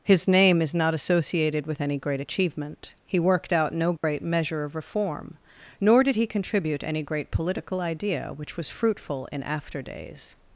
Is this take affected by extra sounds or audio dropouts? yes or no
yes